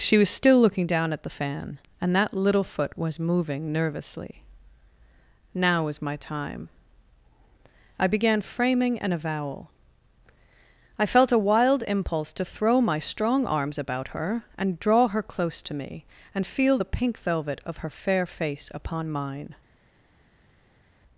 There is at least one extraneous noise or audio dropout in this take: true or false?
false